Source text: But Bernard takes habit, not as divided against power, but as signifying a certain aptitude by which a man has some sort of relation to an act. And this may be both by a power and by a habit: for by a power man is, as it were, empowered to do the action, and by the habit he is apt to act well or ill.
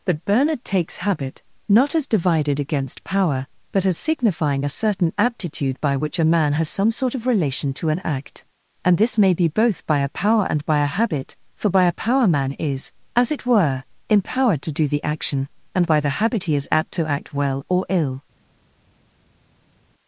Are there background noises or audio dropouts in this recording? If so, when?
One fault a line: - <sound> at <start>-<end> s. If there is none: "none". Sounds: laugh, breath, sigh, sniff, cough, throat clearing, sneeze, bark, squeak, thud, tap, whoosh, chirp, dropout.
none